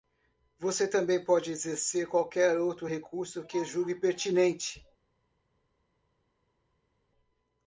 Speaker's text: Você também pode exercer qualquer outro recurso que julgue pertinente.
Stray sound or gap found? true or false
false